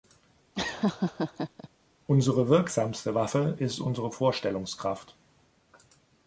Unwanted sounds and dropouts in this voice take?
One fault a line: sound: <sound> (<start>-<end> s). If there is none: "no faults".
sound: laugh (0.6-1.7 s)